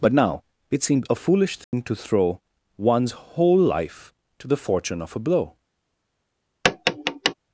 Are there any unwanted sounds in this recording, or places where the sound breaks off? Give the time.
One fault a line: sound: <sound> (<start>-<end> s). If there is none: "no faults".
sound: dropout (1.6-1.7 s)
sound: tap (6.6-7.3 s)